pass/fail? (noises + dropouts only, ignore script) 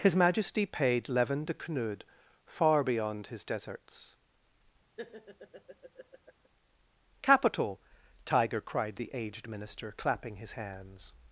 fail